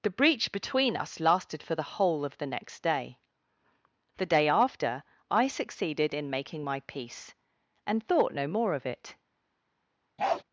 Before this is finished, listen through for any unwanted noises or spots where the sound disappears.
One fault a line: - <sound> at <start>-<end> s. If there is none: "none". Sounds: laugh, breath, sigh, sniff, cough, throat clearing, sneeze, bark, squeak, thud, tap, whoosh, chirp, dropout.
- bark at 10.2-10.4 s